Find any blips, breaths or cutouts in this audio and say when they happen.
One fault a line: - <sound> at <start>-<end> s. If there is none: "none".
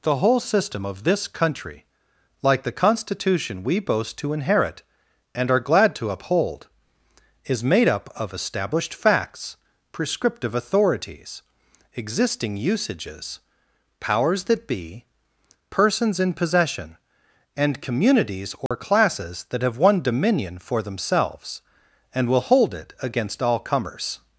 - dropout at 18.7-18.7 s